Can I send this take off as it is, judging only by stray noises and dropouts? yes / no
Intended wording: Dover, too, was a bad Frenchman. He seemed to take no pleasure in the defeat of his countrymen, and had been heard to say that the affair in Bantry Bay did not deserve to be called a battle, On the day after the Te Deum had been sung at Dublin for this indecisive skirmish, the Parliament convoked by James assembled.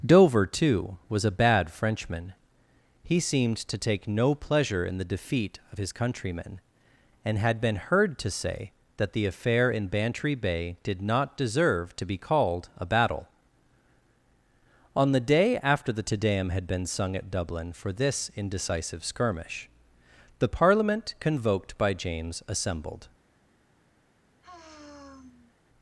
no